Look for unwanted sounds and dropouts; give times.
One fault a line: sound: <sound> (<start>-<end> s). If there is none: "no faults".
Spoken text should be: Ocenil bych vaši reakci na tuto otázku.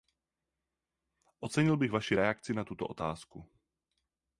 no faults